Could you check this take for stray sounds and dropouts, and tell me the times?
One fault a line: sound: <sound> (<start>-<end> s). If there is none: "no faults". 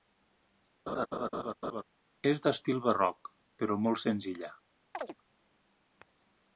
sound: laugh (0.9-1.8 s)
sound: chirp (4.9-5.2 s)